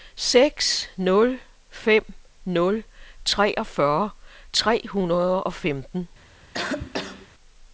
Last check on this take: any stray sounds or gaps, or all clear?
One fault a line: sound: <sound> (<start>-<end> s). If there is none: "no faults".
sound: cough (6.5-7.3 s)